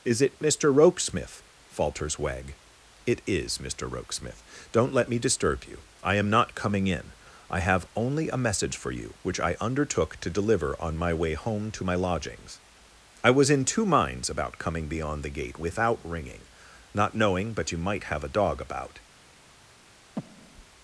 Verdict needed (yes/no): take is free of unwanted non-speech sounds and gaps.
no